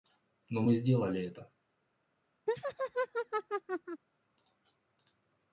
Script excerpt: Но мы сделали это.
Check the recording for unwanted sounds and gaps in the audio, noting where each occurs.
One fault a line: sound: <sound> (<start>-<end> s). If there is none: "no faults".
sound: laugh (2.5-4.0 s)